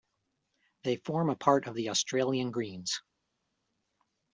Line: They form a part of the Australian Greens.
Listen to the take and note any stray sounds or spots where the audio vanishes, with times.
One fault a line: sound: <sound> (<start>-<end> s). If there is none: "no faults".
no faults